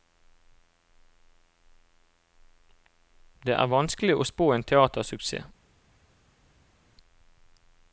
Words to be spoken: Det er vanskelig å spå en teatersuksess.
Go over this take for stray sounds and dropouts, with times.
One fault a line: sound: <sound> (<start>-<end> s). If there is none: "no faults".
no faults